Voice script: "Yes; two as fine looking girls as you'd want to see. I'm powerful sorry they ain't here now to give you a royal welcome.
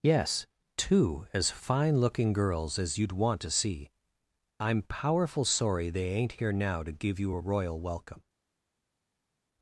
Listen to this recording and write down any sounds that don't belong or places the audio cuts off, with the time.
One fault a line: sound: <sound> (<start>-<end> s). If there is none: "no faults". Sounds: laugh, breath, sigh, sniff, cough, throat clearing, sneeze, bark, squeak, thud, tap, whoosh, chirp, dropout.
no faults